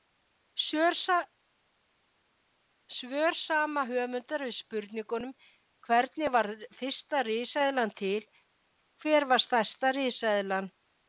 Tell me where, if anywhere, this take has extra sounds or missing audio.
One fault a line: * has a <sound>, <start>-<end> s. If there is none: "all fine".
all fine